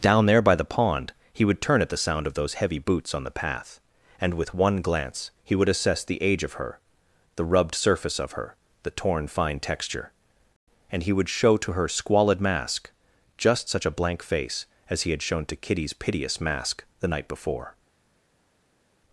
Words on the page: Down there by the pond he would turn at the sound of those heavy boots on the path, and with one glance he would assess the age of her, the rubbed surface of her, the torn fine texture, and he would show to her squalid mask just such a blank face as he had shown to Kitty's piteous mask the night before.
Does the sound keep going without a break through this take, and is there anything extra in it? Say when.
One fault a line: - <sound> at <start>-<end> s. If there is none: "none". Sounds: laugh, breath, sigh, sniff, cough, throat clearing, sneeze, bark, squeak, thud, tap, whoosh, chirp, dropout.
none